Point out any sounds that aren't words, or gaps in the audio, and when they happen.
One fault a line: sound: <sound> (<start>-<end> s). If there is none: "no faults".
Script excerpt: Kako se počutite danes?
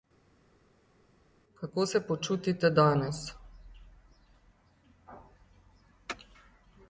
no faults